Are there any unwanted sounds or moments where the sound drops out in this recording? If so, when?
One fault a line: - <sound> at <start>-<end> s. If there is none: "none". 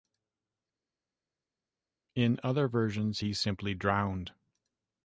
none